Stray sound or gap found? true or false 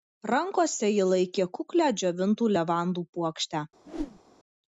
true